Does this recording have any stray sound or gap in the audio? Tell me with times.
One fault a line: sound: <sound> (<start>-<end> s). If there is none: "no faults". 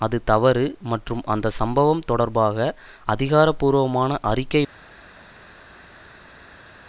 no faults